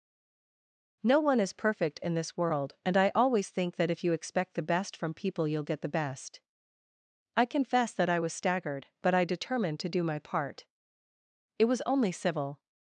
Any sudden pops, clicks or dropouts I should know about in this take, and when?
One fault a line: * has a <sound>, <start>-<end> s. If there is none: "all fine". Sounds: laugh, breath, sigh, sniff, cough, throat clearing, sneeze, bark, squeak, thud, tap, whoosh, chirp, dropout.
all fine